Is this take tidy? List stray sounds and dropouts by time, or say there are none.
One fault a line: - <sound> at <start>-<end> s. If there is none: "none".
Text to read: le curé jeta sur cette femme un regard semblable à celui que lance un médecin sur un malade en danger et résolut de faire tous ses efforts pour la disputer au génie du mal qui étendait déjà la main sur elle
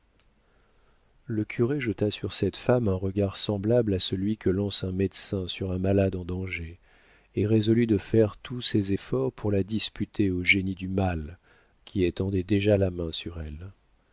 none